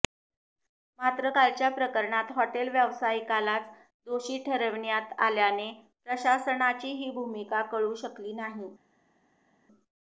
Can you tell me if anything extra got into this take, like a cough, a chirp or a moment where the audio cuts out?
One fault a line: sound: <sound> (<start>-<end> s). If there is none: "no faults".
no faults